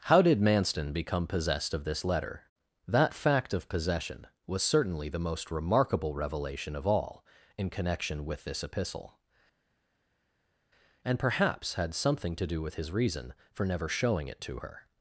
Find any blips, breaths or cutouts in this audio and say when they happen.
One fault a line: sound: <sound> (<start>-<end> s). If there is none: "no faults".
no faults